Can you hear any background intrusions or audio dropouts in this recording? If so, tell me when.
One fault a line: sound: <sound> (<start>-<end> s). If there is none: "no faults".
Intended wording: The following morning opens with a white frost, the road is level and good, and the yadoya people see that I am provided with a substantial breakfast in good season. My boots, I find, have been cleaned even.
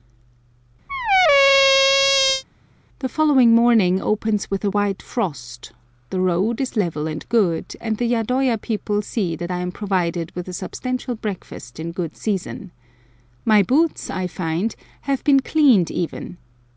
sound: squeak (0.9-2.4 s)